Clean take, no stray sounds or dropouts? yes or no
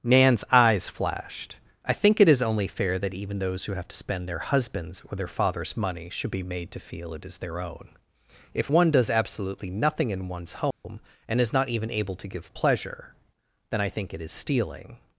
no